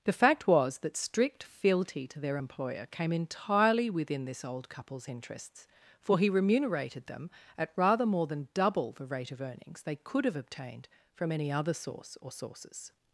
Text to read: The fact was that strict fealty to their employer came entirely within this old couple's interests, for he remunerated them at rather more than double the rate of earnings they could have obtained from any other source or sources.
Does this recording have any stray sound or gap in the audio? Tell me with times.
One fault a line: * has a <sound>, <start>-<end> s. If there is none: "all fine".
all fine